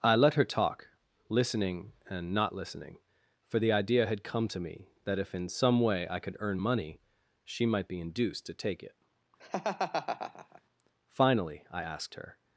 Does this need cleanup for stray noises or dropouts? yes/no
yes